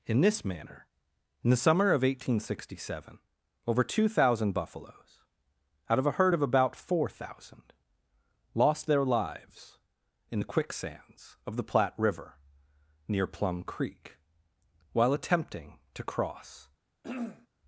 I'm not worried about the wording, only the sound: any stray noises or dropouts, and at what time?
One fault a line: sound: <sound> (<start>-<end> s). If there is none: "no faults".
sound: throat clearing (17.0-17.5 s)